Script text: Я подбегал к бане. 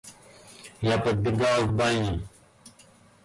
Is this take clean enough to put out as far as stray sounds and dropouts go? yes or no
yes